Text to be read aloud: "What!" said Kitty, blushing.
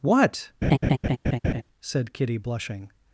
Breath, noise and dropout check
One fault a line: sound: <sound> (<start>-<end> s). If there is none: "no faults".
sound: laugh (0.6-1.6 s)